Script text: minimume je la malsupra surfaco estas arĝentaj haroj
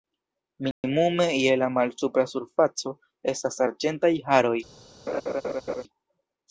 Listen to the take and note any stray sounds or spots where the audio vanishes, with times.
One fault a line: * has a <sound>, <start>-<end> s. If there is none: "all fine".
* has a dropout, 0.7-0.8 s
* has a laugh, 5.1-5.8 s